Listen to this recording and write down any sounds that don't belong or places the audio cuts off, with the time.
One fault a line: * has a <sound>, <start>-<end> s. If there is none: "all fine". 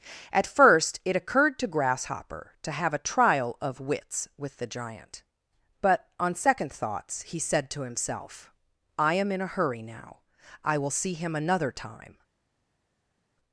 all fine